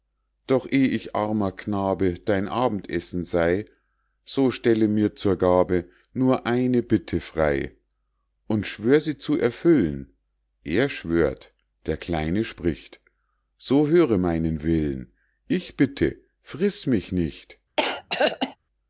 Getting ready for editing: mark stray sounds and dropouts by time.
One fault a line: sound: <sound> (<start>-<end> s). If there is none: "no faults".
sound: throat clearing (17.8-18.6 s)